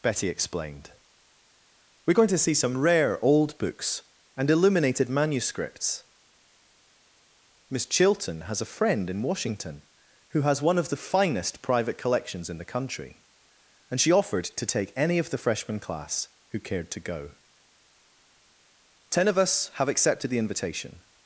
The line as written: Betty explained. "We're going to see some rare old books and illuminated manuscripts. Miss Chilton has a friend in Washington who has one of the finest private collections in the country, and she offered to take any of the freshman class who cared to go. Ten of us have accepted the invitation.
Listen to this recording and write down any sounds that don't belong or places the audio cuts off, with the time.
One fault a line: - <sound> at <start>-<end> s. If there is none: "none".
none